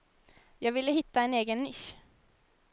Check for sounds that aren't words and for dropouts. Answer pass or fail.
pass